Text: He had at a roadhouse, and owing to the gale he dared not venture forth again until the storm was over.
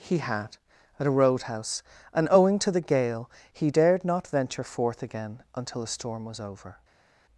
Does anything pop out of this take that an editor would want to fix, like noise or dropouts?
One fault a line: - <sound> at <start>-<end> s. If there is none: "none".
none